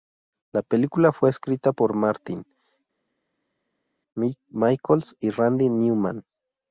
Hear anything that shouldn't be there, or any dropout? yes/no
no